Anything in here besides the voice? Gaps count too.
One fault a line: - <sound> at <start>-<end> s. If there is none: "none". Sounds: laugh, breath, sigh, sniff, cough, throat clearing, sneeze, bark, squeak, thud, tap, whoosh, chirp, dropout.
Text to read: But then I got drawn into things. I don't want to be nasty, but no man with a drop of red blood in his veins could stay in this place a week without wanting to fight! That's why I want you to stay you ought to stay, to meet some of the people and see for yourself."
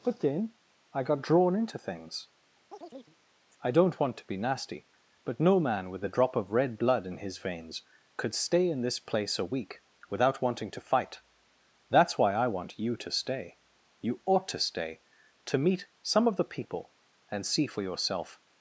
- chirp at 2.7-3.2 s